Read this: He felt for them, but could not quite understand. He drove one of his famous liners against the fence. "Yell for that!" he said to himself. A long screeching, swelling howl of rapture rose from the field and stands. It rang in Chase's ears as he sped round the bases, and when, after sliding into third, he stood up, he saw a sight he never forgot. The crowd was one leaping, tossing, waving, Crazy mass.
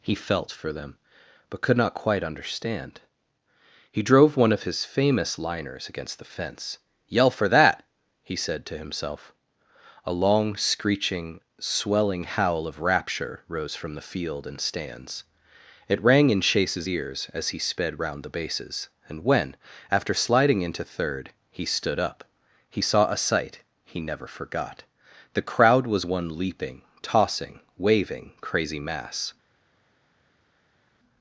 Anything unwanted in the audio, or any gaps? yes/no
no